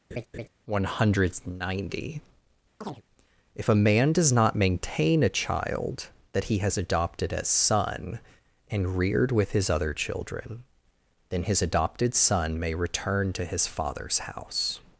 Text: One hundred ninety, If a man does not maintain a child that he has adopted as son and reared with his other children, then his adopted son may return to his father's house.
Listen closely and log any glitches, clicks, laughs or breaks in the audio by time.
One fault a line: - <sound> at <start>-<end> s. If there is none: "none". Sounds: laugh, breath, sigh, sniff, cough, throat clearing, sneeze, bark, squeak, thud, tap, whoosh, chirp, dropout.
- laugh at 0.1-0.5 s
- chirp at 2.8-3.0 s